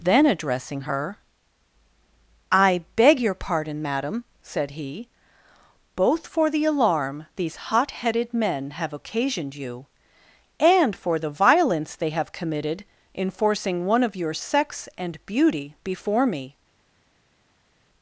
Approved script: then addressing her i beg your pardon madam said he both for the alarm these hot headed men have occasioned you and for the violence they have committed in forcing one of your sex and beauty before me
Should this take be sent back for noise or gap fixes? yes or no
no